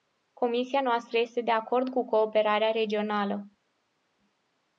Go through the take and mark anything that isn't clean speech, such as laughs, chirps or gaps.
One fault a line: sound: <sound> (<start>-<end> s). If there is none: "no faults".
no faults